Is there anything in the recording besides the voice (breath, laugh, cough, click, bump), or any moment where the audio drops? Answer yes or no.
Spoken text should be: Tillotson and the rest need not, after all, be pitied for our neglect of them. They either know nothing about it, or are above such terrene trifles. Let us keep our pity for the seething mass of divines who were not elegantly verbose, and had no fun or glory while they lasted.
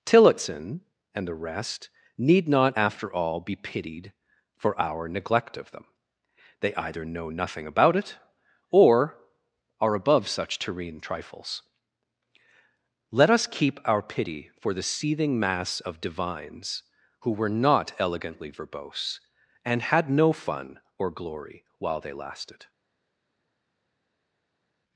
no